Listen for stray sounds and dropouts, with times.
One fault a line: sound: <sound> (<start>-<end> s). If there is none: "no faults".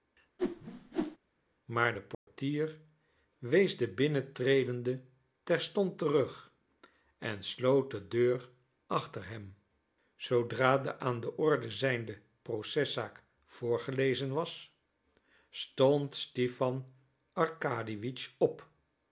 sound: whoosh (0.4-1.2 s)
sound: dropout (2.1-2.3 s)